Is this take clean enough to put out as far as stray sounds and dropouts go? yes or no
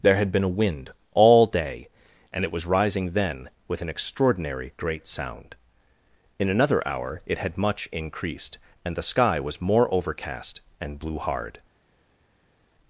yes